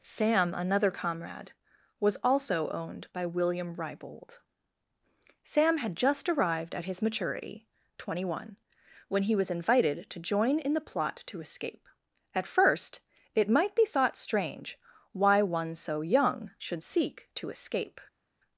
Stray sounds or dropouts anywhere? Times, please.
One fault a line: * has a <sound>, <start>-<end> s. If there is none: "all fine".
all fine